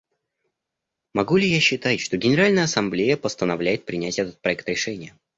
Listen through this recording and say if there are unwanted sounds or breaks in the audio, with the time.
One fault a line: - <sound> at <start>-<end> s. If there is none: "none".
none